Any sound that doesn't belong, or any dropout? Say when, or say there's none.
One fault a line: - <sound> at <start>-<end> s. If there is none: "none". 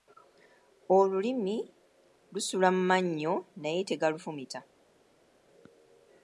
none